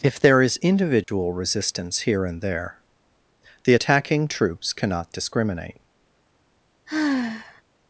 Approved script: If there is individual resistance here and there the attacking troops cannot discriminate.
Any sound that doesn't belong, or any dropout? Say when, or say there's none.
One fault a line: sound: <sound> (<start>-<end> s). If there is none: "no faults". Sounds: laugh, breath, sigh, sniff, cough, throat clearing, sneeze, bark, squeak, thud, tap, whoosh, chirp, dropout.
sound: dropout (1.0-1.1 s)
sound: sigh (6.9-7.6 s)